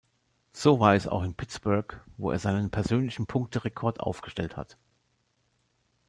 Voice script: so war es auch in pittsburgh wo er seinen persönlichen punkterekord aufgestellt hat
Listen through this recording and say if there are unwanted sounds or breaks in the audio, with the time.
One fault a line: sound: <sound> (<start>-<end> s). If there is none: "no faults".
no faults